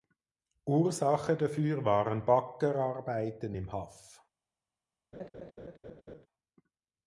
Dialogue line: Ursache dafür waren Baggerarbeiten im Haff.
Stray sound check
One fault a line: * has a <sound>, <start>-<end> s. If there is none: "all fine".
* has a laugh, 5.1-6.3 s